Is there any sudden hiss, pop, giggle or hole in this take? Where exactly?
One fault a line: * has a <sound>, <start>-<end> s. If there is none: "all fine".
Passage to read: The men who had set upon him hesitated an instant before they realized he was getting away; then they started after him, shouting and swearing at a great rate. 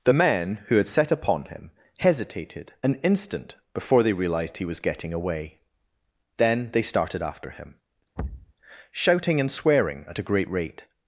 * has a thud, 8.2-8.5 s